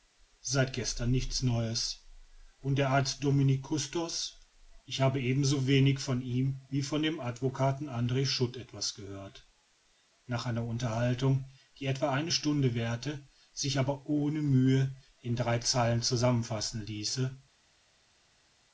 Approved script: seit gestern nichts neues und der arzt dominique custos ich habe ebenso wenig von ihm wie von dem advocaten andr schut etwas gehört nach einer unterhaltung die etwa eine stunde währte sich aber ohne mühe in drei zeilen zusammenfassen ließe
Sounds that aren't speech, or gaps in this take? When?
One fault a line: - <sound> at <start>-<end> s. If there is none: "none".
none